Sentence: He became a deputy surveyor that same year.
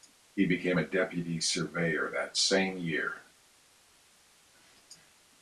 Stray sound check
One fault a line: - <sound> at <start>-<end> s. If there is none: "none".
none